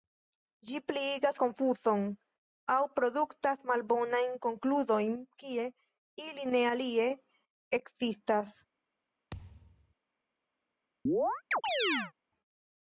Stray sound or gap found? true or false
true